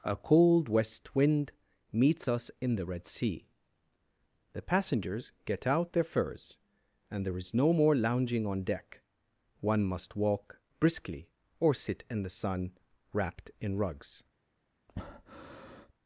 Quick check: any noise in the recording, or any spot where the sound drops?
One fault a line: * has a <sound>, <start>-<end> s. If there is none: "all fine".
* has a breath, 14.9-15.9 s